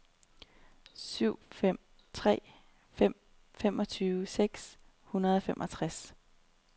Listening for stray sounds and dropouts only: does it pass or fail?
pass